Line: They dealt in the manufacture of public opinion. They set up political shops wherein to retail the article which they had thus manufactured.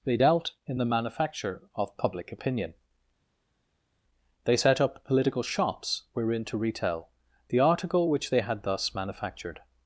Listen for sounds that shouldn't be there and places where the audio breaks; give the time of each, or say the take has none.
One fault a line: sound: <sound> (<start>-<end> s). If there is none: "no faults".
no faults